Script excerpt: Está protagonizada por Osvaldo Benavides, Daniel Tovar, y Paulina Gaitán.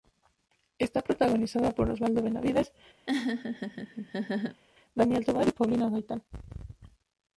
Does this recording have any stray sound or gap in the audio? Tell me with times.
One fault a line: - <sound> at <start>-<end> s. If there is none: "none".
- laugh at 3.1-4.6 s